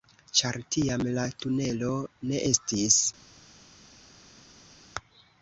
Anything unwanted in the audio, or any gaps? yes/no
no